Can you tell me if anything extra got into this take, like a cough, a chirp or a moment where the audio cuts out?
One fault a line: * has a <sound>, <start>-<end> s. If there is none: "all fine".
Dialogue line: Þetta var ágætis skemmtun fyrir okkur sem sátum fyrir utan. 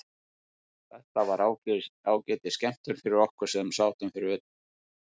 all fine